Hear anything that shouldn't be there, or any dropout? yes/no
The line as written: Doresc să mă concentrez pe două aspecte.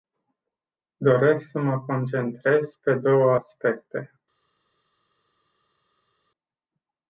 no